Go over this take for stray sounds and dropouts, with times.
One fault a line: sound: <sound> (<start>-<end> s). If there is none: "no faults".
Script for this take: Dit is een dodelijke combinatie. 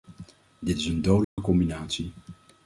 sound: dropout (1.2-1.4 s)